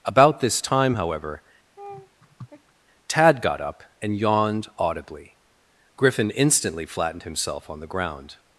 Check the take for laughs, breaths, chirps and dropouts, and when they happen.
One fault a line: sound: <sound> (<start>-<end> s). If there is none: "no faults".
sound: laugh (1.8-2.7 s)